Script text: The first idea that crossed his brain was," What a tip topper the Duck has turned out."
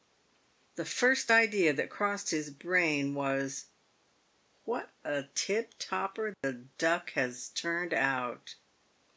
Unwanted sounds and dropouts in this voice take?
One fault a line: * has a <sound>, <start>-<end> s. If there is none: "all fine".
* has a dropout, 6.3-6.4 s